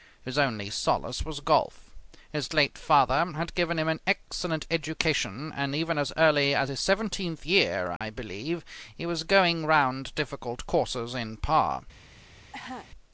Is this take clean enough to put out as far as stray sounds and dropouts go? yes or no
no